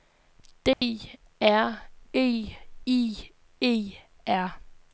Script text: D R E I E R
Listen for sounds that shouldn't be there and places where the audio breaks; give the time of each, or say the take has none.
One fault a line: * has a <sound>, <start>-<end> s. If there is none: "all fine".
* has a dropout, 0.7-0.8 s